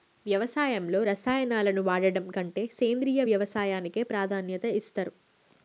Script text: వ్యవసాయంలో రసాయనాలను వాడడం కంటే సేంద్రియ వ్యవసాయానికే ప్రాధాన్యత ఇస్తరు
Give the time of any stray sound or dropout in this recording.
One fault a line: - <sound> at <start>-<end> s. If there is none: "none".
none